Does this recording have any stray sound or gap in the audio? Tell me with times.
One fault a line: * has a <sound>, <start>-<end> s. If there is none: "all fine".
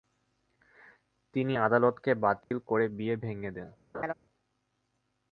* has a dropout, 2.4-2.5 s
* has a laugh, 3.9-4.1 s